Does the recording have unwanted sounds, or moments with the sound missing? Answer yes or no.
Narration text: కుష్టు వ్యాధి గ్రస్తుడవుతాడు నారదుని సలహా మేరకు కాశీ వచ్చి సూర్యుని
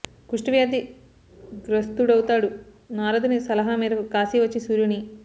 no